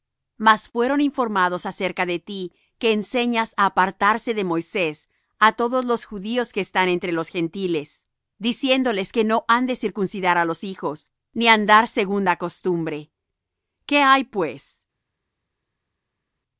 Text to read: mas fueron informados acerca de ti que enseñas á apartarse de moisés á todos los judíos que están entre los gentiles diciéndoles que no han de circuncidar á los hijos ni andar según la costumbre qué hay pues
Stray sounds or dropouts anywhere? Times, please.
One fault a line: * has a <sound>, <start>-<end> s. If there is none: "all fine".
all fine